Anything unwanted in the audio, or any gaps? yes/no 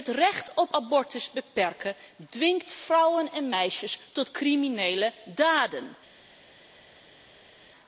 no